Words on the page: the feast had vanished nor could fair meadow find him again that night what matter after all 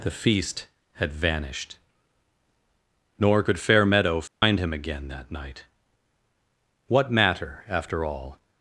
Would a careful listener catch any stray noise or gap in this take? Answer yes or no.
yes